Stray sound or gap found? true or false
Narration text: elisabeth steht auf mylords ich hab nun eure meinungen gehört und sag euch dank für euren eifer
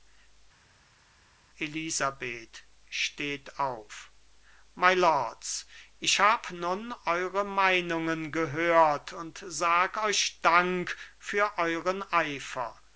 false